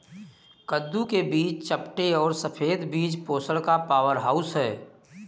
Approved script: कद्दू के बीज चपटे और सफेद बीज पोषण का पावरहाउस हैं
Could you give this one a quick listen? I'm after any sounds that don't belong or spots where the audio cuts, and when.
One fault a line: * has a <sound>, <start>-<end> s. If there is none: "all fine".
all fine